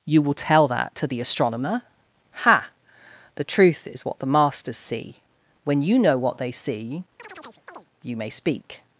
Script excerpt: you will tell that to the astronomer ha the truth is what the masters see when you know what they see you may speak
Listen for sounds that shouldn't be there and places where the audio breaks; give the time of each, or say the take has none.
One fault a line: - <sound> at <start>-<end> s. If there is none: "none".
- chirp at 7.2-7.9 s